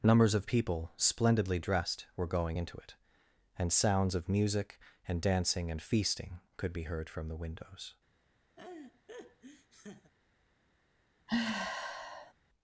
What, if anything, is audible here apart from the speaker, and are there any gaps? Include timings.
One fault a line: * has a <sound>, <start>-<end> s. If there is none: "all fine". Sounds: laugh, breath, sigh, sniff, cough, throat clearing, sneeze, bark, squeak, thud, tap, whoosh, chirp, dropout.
* has a laugh, 8.6-10.1 s
* has a sigh, 11.3-12.3 s